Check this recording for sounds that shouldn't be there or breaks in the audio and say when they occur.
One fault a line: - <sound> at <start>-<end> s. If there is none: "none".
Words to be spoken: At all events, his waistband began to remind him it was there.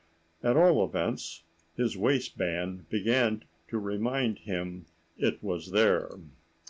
none